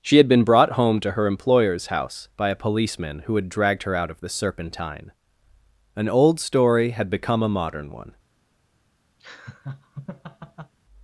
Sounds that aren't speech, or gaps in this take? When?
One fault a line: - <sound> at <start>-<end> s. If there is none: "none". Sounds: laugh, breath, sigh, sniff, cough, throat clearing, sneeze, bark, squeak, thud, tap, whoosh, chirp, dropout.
- laugh at 9.2-10.7 s